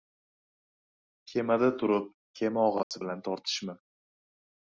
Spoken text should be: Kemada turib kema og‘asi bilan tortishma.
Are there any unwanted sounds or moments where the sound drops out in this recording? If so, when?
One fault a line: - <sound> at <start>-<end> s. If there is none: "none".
- dropout at 2.8-2.9 s